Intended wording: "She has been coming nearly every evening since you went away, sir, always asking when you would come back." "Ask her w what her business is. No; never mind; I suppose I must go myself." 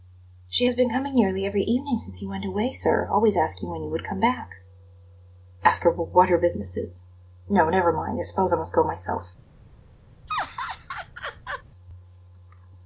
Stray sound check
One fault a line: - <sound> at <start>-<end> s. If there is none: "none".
- laugh at 10.3-11.6 s